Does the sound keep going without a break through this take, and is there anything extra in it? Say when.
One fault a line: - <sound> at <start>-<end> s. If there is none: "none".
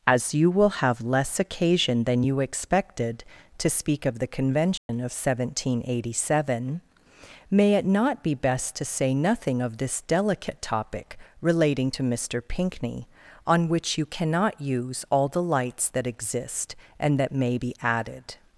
- dropout at 4.8-4.9 s